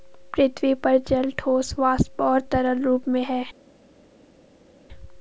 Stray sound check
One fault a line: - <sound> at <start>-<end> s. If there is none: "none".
none